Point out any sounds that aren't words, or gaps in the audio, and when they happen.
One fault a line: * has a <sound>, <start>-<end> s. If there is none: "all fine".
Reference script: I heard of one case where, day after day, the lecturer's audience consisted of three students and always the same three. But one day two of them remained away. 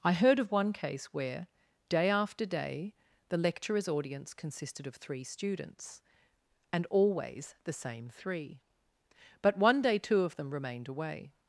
all fine